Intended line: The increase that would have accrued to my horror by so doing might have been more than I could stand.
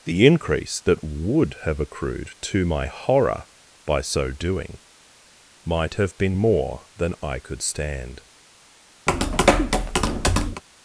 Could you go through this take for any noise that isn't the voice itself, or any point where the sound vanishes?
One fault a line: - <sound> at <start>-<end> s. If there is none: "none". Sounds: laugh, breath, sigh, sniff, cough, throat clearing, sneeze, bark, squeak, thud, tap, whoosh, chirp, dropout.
- tap at 9.1-10.6 s